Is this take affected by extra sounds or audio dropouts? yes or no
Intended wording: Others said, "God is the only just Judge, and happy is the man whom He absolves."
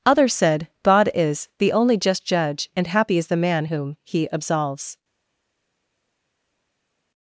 no